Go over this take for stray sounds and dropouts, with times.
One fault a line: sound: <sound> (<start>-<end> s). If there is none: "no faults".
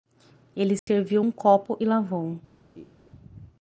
sound: dropout (0.8-0.9 s)
sound: laugh (2.7-3.1 s)